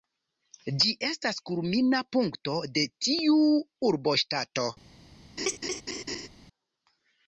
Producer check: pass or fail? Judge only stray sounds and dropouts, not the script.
fail